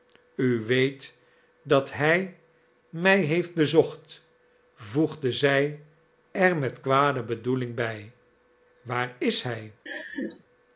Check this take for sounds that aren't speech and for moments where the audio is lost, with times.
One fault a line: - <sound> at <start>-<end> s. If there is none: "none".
- laugh at 9.9-10.4 s